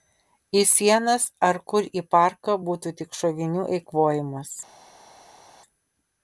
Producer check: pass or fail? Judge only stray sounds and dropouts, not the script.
pass